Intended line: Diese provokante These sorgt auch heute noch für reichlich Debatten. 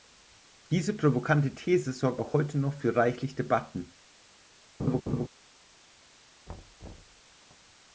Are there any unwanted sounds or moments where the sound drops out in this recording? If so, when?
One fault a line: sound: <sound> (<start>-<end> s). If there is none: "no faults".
sound: laugh (4.8-5.3 s)
sound: thud (6.5-7.2 s)